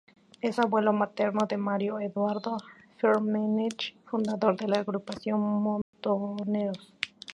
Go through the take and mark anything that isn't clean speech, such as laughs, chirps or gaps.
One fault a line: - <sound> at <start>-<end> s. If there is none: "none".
- dropout at 5.8-5.9 s